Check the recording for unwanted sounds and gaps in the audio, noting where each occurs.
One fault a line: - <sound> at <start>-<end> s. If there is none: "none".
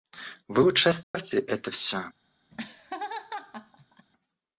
- dropout at 1.0-1.1 s
- laugh at 2.5-4.1 s